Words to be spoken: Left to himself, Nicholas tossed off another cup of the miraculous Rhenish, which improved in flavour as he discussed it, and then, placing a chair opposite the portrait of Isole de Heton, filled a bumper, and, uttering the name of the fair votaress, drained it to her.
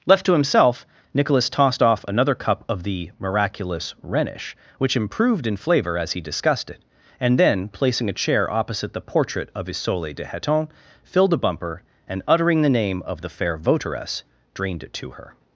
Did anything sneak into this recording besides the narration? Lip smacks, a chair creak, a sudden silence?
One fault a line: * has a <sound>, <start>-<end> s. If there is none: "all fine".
all fine